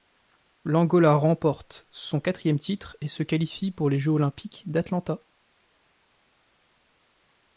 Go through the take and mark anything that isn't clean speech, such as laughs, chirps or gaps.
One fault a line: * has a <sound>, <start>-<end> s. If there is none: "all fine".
all fine